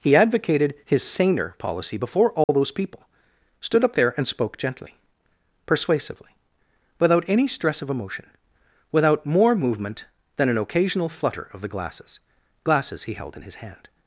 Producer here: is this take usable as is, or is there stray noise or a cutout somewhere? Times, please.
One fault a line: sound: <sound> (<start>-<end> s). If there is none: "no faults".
sound: dropout (2.4-2.5 s)